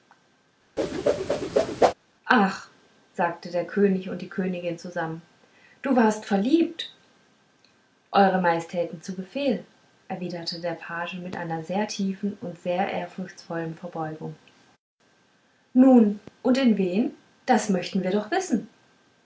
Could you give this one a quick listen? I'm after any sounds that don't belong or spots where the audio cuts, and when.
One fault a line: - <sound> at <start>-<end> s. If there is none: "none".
- whoosh at 0.8-1.9 s